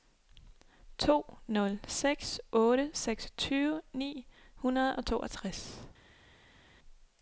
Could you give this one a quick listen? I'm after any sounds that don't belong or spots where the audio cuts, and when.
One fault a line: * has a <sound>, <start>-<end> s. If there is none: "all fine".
all fine